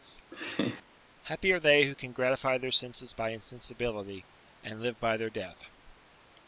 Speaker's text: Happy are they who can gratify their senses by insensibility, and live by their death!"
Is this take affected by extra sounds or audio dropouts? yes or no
yes